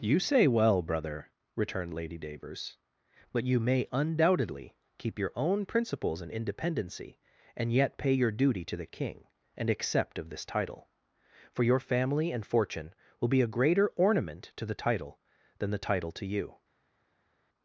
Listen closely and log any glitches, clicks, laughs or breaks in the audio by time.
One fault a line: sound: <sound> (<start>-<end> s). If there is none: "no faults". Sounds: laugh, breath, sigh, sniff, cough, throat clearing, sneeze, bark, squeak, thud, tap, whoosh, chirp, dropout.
no faults